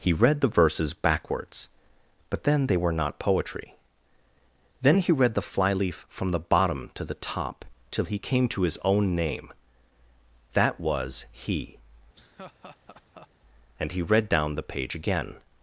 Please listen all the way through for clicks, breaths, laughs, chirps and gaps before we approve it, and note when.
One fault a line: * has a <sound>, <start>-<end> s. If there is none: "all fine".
* has a laugh, 12.1-13.3 s